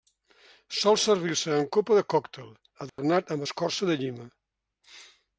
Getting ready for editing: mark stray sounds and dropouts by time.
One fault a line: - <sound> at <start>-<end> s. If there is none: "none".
- dropout at 2.9-3.0 s